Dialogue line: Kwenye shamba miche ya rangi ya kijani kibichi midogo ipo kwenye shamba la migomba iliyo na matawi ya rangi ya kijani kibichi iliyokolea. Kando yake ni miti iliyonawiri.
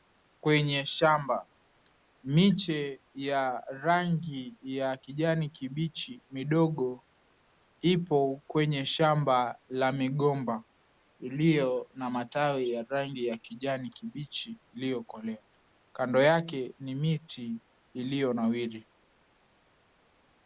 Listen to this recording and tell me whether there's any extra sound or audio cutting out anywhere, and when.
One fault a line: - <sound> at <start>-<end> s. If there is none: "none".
none